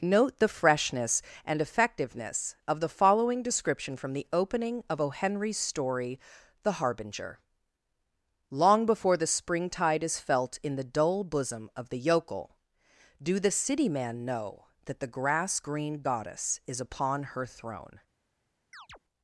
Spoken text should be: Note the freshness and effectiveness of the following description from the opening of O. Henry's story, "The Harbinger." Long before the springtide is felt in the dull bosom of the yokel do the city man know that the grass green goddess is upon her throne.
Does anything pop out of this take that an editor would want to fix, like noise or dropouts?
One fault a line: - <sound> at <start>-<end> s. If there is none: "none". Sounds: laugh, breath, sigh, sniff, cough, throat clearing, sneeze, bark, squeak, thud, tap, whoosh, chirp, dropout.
- chirp at 18.7-19.0 s